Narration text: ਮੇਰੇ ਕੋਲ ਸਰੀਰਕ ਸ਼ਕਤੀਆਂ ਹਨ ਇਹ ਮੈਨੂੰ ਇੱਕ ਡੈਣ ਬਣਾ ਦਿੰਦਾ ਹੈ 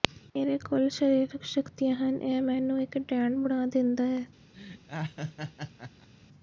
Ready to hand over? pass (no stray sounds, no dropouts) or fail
fail